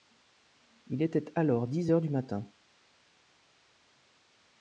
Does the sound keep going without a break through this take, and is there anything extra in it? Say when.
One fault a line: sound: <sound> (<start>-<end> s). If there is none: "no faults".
no faults